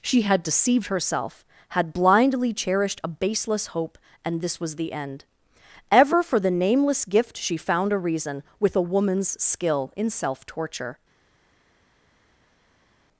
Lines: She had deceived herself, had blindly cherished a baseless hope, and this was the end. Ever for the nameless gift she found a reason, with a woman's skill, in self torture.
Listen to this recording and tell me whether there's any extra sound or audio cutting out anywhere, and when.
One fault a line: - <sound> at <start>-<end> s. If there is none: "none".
none